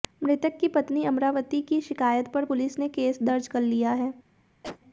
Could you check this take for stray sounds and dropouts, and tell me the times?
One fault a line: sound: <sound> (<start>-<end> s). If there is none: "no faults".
sound: cough (4.6-4.8 s)